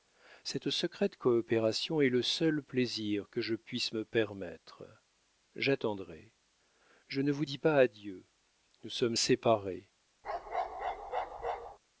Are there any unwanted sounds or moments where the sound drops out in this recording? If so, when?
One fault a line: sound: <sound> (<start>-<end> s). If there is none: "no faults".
sound: bark (10.2-11.8 s)